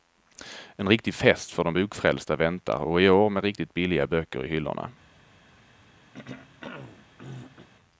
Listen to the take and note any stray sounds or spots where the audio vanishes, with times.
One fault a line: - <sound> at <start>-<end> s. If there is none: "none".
- throat clearing at 6.1-7.7 s